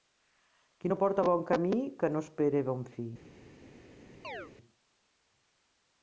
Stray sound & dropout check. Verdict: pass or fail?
fail